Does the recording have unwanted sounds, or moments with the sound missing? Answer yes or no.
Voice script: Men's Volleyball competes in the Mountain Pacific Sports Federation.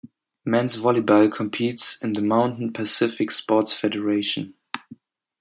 no